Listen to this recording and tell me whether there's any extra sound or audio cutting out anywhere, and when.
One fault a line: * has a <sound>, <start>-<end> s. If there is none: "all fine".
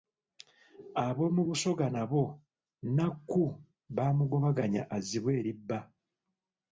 all fine